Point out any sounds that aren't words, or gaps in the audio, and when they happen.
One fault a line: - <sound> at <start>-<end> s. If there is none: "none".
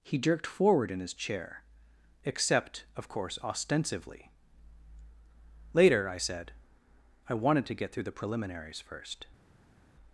none